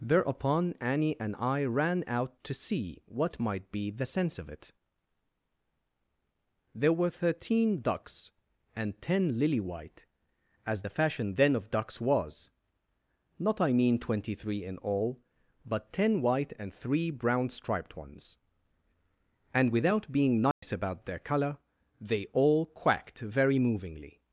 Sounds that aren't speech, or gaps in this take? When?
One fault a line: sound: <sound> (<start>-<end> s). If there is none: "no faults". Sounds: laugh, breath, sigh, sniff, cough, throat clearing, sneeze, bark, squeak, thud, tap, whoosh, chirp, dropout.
sound: dropout (20.5-20.6 s)